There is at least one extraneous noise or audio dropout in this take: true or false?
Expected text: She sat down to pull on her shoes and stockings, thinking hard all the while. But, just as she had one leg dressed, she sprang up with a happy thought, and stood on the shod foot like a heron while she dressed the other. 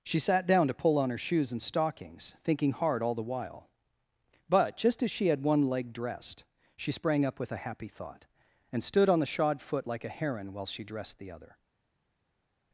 false